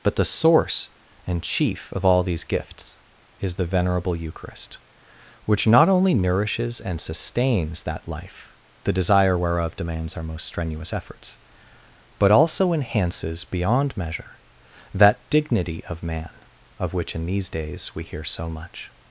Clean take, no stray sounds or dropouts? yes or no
yes